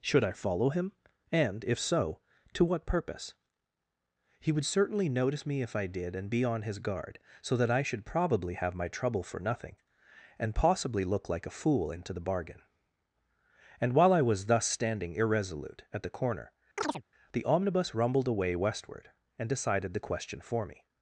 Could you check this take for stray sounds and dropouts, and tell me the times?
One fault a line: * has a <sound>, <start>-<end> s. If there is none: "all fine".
* has a chirp, 16.8-17.0 s